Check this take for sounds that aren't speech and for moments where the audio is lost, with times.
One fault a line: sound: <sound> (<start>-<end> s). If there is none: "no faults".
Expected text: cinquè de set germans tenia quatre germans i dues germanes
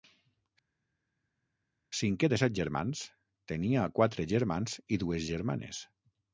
no faults